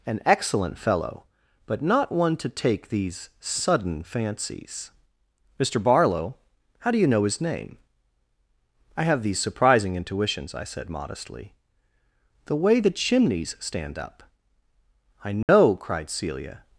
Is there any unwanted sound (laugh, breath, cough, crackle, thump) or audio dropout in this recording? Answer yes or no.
yes